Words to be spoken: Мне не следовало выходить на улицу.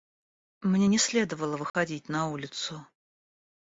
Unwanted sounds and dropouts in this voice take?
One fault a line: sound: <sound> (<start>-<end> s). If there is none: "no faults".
sound: dropout (1.7-1.7 s)